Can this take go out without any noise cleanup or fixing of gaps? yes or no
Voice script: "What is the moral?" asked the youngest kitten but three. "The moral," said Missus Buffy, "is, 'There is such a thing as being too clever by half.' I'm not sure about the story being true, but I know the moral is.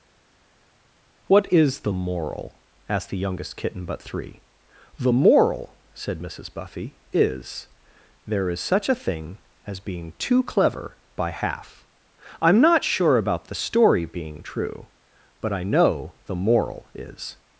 yes